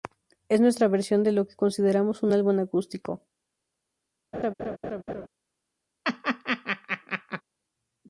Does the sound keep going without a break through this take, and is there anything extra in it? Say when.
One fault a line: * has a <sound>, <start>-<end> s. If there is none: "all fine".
* has a laugh, 4.3-5.3 s
* has a laugh, 6.0-7.4 s